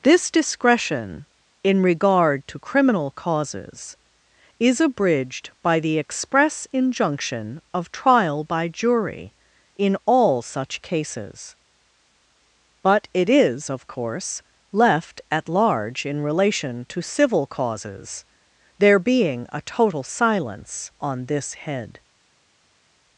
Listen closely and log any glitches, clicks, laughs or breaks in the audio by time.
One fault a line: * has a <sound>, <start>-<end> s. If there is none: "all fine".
all fine